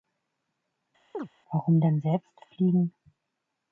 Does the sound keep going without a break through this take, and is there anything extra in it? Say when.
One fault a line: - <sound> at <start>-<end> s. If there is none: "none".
- chirp at 1.1-1.3 s